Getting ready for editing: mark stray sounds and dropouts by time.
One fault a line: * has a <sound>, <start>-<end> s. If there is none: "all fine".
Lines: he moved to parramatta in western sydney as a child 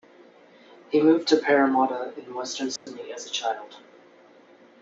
* has a dropout, 2.8-2.9 s